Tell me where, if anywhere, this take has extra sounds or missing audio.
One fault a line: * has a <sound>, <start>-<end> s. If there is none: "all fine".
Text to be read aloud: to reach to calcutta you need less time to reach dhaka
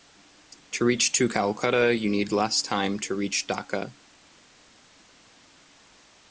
all fine